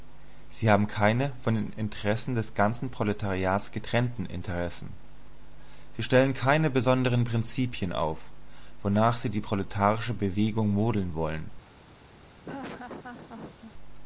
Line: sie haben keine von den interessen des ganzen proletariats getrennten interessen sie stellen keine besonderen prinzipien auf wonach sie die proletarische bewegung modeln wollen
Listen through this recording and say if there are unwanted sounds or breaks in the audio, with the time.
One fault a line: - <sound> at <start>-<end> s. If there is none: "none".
- laugh at 12.4-13.7 s